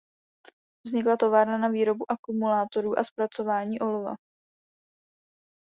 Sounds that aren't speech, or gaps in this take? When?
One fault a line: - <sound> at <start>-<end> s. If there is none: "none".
none